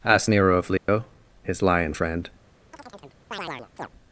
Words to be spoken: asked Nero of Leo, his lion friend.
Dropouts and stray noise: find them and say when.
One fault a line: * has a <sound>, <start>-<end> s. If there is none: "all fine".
* has a dropout, 0.8-0.9 s
* has a chirp, 2.7-3.9 s